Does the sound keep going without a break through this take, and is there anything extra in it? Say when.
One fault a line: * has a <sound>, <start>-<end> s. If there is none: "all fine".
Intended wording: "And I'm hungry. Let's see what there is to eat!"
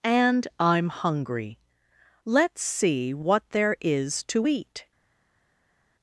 all fine